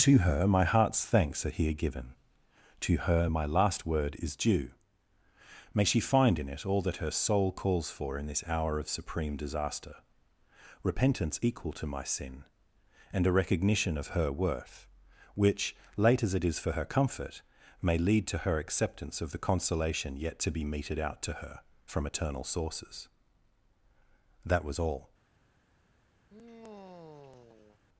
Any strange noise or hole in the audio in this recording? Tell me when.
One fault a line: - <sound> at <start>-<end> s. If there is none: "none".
- sigh at 26.3-27.8 s